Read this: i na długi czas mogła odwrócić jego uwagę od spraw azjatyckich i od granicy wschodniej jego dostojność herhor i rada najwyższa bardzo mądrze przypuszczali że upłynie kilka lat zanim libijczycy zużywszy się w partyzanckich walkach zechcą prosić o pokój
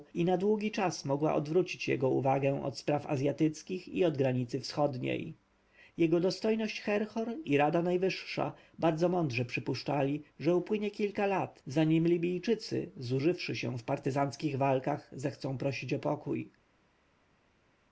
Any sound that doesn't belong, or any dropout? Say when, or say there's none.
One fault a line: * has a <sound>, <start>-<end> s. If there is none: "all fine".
all fine